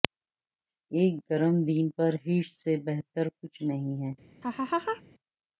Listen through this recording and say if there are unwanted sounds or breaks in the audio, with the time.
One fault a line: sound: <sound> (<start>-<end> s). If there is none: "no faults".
sound: laugh (4.4-5.0 s)